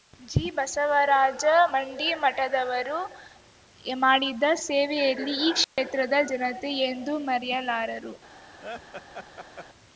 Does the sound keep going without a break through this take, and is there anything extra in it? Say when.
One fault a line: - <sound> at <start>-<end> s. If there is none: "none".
- dropout at 5.6-5.8 s
- laugh at 8.6-9.7 s